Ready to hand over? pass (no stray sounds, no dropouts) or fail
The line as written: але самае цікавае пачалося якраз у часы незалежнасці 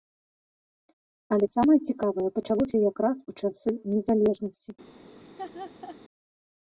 fail